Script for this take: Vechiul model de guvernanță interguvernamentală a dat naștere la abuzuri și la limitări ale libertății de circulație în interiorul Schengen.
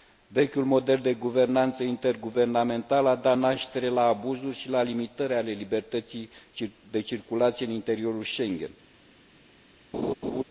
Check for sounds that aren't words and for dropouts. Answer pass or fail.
fail